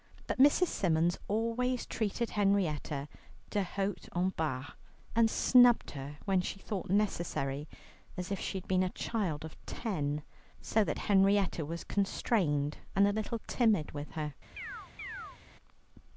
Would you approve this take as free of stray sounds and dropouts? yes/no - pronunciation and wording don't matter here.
no